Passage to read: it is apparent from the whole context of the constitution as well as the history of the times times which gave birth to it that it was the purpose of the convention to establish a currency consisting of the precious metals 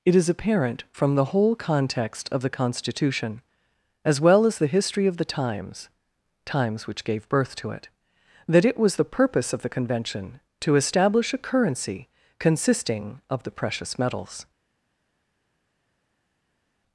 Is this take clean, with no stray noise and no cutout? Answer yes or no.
yes